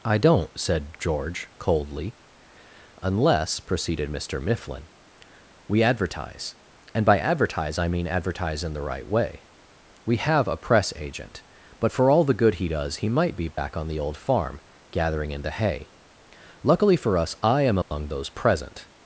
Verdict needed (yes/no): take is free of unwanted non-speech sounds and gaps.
no